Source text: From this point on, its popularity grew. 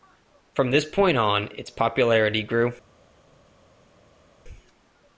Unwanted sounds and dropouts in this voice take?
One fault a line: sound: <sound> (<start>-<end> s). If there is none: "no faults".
no faults